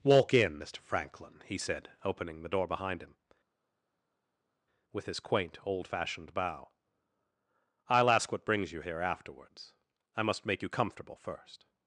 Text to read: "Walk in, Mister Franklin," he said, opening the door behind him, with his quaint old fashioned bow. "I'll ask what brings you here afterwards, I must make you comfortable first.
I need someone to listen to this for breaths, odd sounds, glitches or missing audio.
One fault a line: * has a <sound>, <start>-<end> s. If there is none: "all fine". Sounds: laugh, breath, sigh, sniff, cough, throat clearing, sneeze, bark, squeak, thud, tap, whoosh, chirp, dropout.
all fine